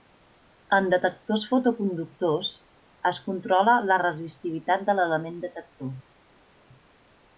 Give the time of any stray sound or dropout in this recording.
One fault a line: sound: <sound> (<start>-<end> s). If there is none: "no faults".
no faults